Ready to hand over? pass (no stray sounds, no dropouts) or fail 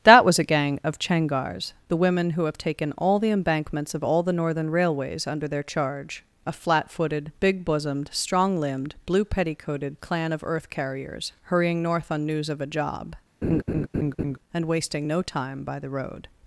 fail